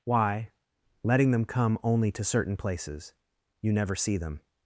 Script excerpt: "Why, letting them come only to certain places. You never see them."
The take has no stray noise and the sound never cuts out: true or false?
true